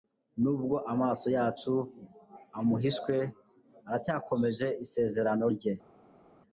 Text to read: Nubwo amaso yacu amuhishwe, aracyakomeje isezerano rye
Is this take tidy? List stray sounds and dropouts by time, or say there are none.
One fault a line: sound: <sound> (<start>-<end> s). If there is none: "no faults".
no faults